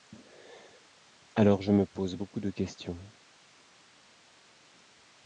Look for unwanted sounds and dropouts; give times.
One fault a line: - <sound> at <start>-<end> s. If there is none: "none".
none